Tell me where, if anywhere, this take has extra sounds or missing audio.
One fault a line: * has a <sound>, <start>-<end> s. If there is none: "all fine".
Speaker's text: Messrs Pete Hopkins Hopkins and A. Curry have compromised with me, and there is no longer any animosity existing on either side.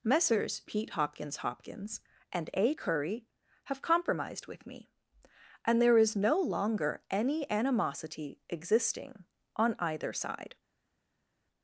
all fine